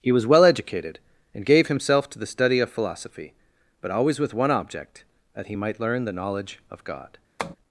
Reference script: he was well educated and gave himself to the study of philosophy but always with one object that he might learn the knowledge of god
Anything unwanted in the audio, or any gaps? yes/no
yes